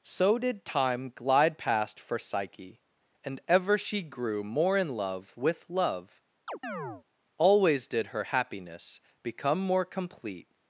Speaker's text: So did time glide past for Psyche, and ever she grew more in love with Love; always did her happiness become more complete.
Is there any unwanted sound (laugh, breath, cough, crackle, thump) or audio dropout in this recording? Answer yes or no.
yes